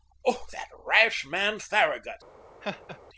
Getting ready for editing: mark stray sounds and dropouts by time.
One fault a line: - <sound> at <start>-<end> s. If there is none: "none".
- laugh at 2.6-3.0 s